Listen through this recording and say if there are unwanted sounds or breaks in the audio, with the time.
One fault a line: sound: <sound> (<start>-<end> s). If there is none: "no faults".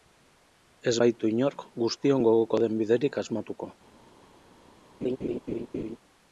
sound: laugh (5.0-6.0 s)